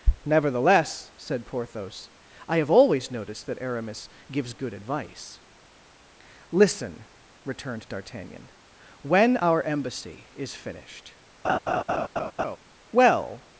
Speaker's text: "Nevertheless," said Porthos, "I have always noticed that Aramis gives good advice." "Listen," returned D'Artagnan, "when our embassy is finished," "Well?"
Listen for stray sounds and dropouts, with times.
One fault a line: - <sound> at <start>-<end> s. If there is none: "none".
- laugh at 11.4-12.6 s